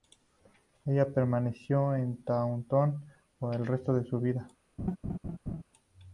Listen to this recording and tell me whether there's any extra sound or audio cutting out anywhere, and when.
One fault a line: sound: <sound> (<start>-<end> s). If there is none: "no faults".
sound: laugh (4.8-5.6 s)